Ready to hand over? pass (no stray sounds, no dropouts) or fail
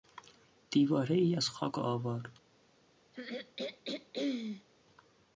fail